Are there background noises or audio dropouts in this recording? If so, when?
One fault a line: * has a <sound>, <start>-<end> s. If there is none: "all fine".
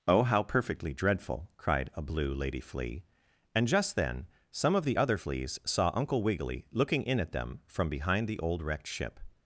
all fine